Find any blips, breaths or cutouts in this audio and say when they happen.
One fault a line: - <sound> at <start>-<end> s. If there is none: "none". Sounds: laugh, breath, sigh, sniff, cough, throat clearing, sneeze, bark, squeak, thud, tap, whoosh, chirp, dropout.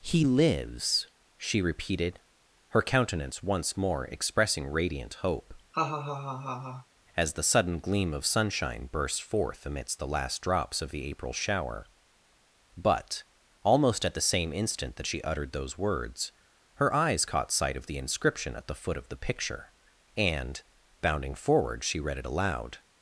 - laugh at 5.7-6.9 s